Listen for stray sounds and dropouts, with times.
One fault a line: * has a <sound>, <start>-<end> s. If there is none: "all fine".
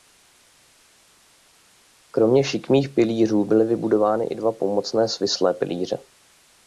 all fine